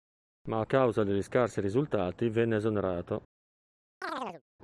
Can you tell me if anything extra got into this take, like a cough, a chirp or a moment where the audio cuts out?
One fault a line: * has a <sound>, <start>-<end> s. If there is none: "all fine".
* has a chirp, 4.0-4.4 s